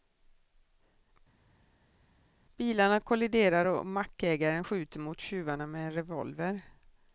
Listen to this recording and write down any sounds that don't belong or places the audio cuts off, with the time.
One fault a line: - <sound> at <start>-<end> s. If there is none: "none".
none